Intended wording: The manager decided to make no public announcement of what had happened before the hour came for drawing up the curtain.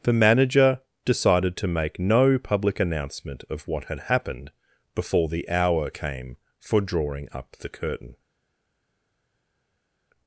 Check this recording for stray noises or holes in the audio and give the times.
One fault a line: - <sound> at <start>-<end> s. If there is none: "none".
none